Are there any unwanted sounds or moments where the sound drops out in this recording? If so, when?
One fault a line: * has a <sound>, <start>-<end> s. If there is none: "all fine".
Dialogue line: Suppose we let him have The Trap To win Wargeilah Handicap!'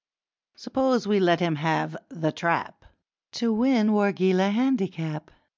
all fine